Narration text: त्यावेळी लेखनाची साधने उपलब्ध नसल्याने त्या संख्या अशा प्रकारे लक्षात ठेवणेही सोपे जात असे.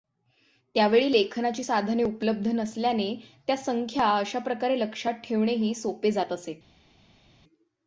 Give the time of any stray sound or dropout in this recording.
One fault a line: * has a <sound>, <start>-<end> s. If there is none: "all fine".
all fine